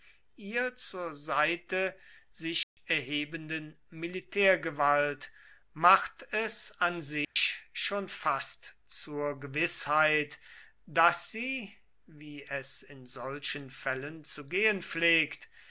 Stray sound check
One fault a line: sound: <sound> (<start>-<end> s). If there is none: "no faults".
sound: dropout (2.6-2.8 s)
sound: dropout (7.2-7.4 s)